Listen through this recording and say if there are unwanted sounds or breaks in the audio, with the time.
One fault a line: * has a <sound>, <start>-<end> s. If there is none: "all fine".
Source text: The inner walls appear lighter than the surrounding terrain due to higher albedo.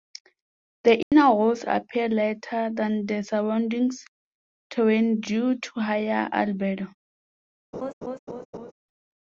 * has a dropout, 1.0-1.1 s
* has a laugh, 7.7-8.7 s